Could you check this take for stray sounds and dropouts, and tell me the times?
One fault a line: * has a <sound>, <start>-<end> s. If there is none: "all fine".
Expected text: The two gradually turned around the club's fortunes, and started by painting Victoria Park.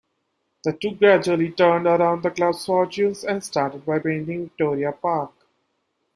all fine